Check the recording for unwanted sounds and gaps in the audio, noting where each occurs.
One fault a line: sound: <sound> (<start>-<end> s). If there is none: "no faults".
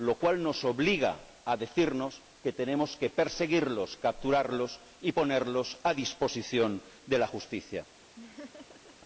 sound: laugh (8.2-9.0 s)